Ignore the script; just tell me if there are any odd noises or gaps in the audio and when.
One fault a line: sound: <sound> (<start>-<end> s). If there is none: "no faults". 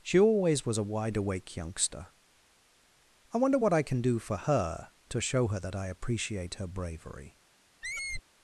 sound: squeak (7.8-8.2 s)